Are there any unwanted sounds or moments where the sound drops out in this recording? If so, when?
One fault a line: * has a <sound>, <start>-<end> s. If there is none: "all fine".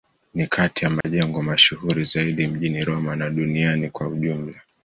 * has a dropout, 1.0-1.0 s